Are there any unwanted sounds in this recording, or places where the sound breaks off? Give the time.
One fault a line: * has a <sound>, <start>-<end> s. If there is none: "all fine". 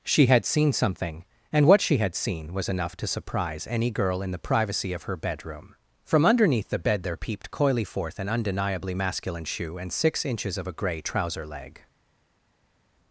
all fine